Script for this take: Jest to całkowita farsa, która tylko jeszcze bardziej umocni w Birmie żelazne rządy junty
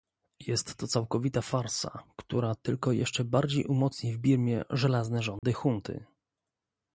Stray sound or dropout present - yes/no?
yes